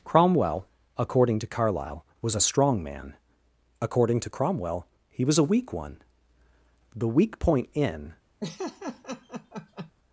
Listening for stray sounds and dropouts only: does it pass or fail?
fail